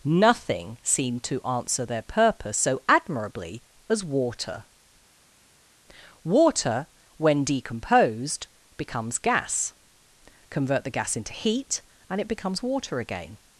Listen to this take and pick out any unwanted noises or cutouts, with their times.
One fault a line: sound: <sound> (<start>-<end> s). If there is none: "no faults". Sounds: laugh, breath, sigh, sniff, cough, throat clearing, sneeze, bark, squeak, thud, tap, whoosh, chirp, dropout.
no faults